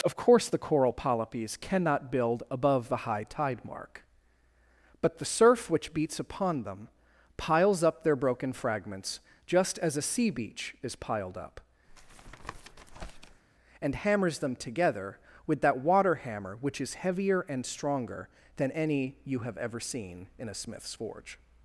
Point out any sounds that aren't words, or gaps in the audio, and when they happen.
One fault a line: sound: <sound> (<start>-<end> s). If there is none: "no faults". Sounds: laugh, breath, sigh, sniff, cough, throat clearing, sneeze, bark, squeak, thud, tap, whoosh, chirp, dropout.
sound: tap (11.9-13.4 s)